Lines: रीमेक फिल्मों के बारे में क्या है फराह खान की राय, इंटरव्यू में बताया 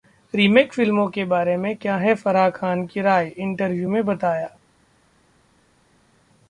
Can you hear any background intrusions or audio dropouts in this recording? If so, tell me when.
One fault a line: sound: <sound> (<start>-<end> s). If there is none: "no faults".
no faults